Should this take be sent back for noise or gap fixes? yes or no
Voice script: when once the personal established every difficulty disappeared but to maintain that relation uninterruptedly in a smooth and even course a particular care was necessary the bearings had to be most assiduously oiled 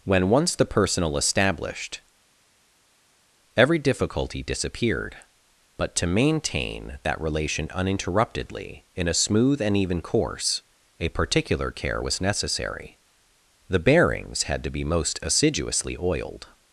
no